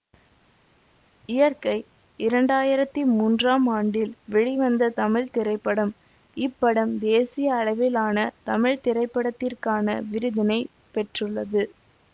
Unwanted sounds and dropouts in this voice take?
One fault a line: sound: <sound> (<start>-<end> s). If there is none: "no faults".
no faults